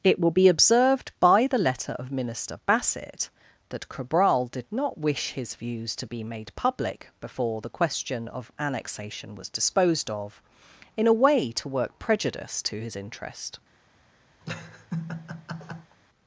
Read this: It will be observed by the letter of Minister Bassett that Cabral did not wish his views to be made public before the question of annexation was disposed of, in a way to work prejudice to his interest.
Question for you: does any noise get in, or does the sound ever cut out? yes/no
yes